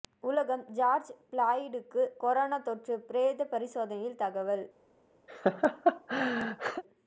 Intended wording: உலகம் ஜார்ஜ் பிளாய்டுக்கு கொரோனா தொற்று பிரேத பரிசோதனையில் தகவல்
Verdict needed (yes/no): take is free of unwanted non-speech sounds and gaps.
no